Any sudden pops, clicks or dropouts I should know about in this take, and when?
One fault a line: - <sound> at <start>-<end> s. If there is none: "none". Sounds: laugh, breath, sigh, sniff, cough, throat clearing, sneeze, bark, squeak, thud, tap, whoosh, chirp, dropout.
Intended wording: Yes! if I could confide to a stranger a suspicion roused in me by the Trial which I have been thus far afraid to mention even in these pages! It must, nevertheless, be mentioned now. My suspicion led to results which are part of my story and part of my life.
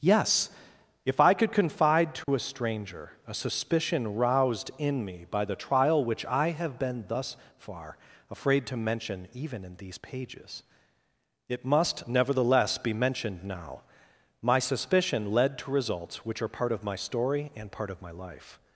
- dropout at 2.2-2.3 s